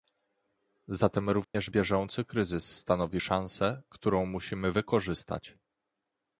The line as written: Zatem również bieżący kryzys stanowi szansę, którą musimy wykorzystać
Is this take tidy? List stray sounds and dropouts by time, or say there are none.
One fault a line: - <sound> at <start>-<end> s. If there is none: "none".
- dropout at 1.4-1.5 s